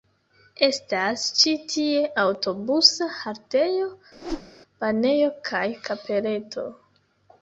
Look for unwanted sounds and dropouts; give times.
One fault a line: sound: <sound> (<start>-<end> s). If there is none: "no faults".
sound: whoosh (4.1-4.5 s)